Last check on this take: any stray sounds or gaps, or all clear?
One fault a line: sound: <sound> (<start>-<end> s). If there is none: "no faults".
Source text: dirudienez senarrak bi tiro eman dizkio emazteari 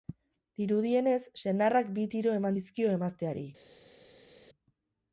no faults